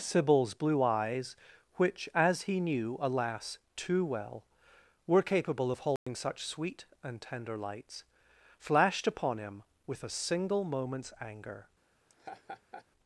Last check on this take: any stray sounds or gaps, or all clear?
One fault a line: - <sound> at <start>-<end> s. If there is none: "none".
- dropout at 6.0-6.1 s
- laugh at 12.1-12.9 s